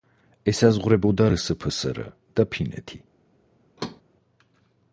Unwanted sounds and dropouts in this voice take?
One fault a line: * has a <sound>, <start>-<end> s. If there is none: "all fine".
* has a thud, 3.8-4.0 s